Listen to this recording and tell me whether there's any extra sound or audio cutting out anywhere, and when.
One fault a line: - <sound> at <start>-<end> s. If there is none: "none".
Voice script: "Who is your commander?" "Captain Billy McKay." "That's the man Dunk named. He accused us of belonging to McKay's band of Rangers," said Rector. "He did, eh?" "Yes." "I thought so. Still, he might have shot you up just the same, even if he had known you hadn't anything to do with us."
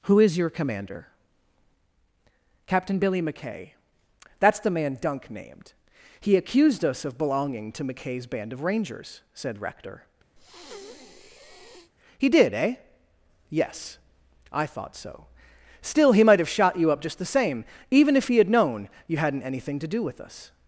- breath at 10.4-11.9 s